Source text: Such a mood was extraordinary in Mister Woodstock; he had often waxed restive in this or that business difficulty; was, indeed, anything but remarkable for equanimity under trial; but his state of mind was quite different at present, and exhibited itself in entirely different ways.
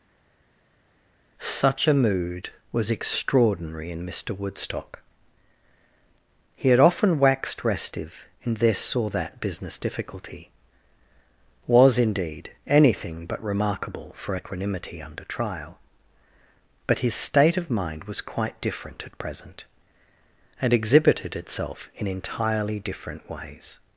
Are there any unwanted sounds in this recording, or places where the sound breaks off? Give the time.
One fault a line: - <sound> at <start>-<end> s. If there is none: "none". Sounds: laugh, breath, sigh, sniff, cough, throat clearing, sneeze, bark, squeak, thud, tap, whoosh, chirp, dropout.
none